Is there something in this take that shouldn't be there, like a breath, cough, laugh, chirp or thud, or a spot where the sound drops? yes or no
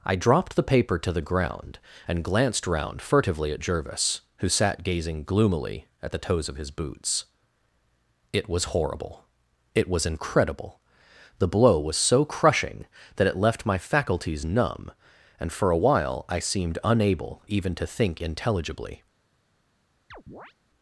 yes